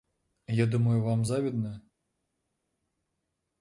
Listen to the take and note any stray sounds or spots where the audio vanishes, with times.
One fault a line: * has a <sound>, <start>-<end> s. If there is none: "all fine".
all fine